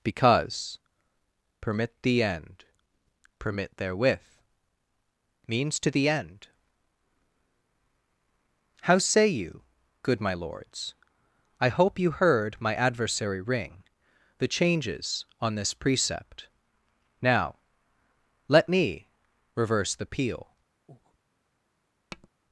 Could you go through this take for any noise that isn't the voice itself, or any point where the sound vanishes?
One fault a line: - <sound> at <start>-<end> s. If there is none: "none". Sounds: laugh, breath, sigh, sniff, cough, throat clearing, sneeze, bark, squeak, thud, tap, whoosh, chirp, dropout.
- breath at 20.9-21.2 s
- tap at 22.1-22.3 s